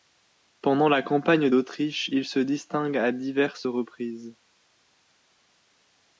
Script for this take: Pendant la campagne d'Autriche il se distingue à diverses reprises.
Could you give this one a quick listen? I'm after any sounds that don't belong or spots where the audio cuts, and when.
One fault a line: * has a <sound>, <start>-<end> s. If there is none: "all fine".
all fine